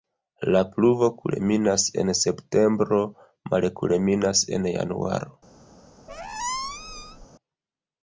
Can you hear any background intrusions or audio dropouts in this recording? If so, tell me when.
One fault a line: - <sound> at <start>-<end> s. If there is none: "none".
- squeak at 6.1-7.3 s